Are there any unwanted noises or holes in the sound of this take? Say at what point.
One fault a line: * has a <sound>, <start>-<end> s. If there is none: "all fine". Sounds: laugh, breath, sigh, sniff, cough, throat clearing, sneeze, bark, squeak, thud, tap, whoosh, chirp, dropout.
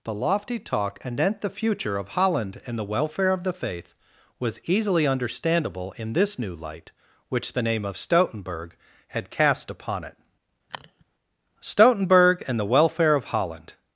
* has a sniff, 10.7-11.0 s